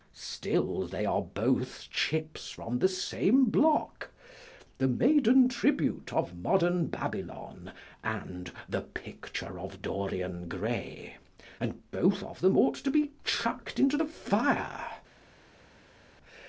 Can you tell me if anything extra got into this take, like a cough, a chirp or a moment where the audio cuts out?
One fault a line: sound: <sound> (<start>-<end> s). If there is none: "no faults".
no faults